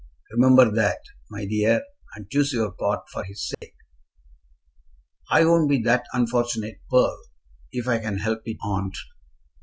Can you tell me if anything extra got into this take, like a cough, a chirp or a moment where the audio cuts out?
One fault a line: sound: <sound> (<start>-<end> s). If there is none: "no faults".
sound: dropout (3.5-3.6 s)